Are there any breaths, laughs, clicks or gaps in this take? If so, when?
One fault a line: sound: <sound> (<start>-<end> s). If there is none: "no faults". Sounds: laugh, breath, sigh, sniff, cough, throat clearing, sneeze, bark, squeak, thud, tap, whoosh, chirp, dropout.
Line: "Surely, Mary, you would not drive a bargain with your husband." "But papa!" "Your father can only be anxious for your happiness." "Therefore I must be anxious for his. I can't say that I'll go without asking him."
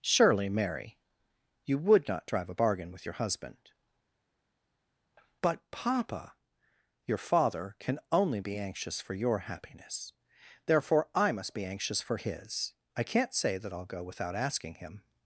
no faults